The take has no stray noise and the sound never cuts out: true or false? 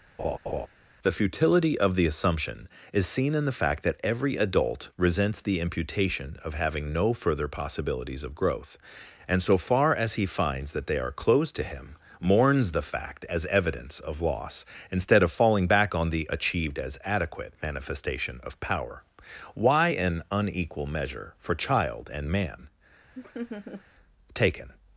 false